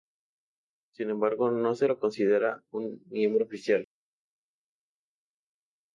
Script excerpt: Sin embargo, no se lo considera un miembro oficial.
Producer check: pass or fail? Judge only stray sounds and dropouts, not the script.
pass